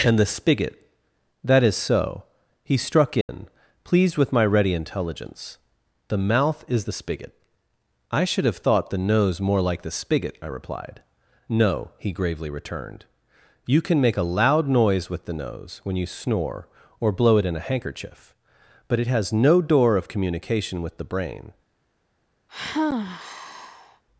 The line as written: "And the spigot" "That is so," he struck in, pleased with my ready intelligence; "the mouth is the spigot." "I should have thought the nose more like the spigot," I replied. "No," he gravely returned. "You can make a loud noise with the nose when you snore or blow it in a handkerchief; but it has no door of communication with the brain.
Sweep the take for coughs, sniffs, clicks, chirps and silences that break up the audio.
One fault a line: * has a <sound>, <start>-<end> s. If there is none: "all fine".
* has a dropout, 3.2-3.3 s
* has a sigh, 22.5-24.0 s